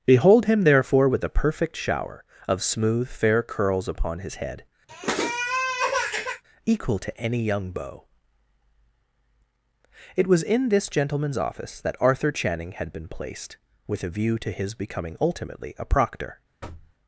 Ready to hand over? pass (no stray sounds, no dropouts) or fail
fail